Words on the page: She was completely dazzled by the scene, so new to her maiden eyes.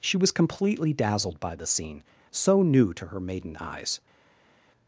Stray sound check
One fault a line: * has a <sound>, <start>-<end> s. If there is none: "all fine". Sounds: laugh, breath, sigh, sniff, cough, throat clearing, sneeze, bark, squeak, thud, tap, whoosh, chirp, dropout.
all fine